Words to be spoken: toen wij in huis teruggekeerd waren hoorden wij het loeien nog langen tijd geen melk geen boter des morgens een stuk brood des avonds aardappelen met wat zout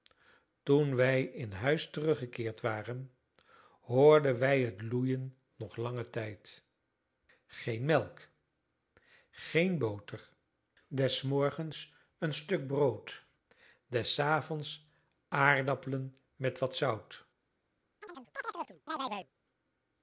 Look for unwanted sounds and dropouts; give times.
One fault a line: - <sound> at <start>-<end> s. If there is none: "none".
- chirp at 18.0-19.3 s